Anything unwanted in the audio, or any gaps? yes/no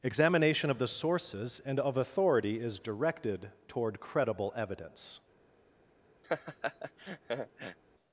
yes